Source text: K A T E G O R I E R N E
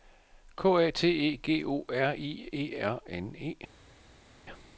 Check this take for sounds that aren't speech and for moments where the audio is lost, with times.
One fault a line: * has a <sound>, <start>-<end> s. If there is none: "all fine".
all fine